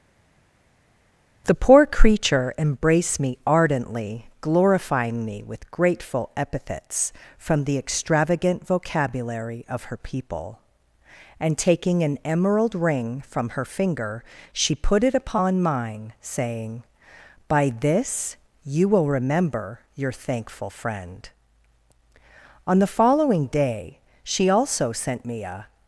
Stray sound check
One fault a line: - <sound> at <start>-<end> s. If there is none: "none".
none